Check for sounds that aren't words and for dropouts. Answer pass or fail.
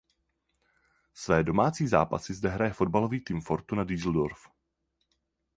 pass